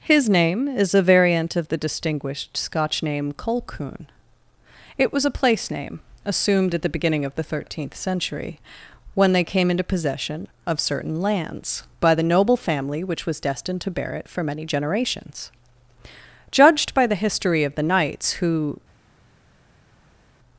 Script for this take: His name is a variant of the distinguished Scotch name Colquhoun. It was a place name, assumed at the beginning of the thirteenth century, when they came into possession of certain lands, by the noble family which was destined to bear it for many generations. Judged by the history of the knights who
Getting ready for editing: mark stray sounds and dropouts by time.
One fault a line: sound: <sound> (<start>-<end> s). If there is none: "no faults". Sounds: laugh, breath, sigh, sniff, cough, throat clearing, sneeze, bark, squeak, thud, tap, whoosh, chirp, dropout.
no faults